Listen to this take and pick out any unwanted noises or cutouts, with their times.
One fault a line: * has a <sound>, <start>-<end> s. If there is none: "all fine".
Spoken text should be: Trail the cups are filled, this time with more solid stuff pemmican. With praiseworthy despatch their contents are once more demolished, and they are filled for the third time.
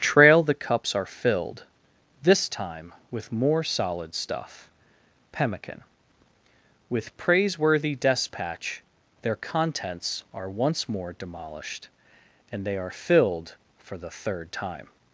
all fine